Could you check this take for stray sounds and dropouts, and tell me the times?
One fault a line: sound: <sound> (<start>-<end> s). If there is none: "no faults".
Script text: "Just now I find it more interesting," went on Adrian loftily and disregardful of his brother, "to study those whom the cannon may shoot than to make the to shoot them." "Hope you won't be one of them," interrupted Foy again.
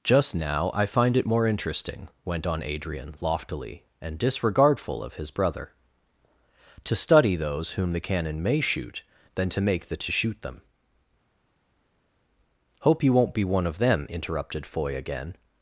no faults